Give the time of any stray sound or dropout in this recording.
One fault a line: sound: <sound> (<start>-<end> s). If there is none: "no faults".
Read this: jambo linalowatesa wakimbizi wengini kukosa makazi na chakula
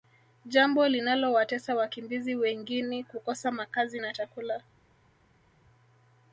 no faults